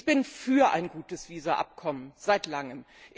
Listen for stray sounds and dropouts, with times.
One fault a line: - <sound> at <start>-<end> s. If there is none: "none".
none